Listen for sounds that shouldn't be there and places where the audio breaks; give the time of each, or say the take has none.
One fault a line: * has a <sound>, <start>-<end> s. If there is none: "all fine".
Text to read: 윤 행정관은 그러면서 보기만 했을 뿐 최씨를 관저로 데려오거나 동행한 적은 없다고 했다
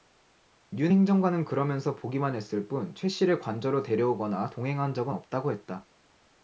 all fine